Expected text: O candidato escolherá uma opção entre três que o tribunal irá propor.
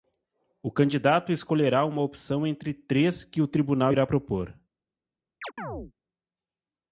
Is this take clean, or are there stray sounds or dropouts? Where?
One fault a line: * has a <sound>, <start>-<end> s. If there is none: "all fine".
* has a chirp, 5.4-5.9 s